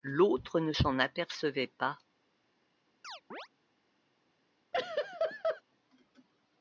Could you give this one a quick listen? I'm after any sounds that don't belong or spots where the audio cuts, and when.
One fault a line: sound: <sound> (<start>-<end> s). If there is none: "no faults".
sound: chirp (3.0-3.5 s)
sound: laugh (4.7-5.6 s)